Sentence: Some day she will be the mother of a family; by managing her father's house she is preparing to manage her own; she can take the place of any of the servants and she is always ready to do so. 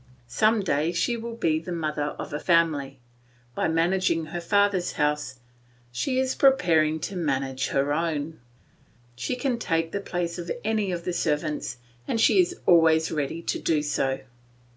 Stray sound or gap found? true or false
false